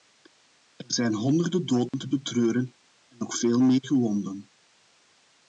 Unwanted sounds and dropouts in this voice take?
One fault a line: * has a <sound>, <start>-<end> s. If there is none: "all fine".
* has a dropout, 1.9-1.9 s